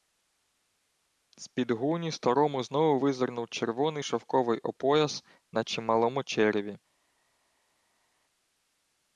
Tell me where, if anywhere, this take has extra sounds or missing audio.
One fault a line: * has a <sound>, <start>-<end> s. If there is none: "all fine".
all fine